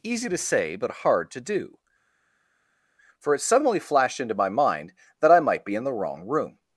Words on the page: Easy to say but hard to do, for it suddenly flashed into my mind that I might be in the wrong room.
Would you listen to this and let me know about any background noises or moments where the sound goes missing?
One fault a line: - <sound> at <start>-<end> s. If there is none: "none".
none